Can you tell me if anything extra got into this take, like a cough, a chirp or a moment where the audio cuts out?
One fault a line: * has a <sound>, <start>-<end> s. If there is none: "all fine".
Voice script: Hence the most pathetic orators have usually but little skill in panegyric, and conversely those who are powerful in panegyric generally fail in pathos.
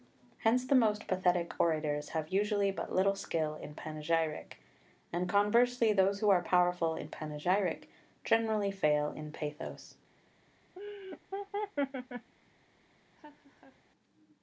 * has a laugh, 10.8-12.3 s
* has a laugh, 13.1-13.8 s